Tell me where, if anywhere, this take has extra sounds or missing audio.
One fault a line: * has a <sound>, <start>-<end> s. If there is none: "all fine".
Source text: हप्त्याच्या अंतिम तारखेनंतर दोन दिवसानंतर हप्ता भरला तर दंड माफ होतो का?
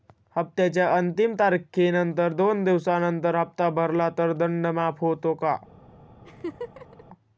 * has a laugh, 6.2-7.0 s